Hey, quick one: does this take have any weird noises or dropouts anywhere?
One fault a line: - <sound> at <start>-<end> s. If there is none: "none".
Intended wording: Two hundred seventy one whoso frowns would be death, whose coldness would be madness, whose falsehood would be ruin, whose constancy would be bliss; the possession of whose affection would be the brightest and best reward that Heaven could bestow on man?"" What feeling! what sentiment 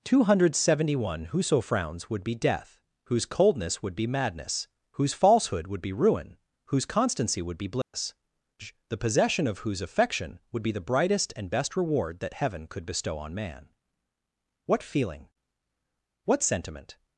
- dropout at 7.8-7.9 s